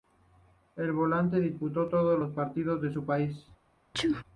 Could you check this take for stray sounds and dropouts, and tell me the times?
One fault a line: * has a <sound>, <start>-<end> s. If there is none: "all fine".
* has a sneeze, 3.9-4.2 s